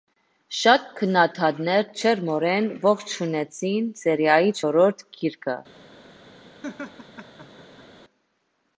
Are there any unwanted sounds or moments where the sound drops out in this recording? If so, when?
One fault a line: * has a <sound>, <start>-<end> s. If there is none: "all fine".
* has a laugh, 6.6-7.9 s